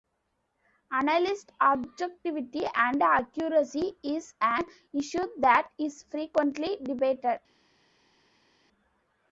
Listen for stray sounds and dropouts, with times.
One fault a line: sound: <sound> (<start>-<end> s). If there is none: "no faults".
no faults